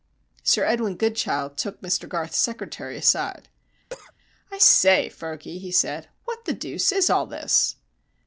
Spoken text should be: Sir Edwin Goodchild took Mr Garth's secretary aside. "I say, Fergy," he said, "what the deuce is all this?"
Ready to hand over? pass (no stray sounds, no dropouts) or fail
fail